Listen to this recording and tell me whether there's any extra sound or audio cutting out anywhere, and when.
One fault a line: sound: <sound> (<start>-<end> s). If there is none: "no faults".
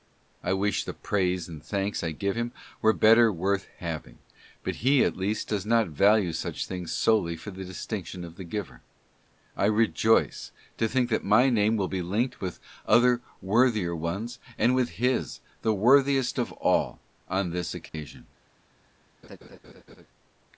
sound: dropout (17.9-17.9 s)
sound: laugh (19.2-20.1 s)